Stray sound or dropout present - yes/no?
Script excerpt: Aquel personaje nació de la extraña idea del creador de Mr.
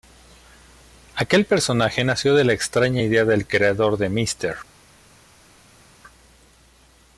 no